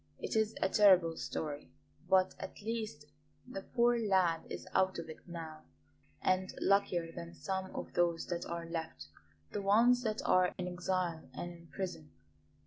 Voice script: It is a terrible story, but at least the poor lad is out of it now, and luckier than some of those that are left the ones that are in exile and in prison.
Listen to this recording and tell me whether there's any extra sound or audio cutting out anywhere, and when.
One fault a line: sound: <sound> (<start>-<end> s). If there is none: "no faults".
sound: dropout (10.5-10.6 s)